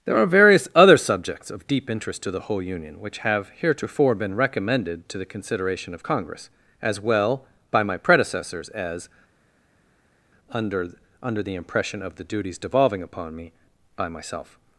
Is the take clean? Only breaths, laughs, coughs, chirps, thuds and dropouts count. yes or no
yes